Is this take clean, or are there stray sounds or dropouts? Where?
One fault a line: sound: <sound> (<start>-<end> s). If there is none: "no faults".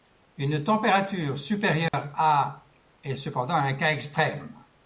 sound: dropout (1.9-1.9 s)